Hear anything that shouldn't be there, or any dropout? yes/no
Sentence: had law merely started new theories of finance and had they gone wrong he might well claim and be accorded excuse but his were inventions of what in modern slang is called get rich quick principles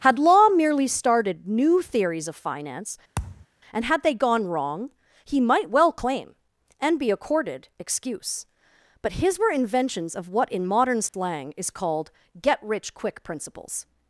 yes